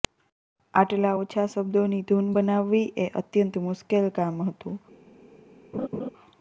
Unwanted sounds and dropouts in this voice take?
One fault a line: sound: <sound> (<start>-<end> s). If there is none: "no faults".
sound: laugh (5.7-6.1 s)